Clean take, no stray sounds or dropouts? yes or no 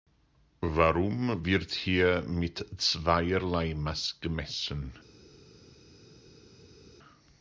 yes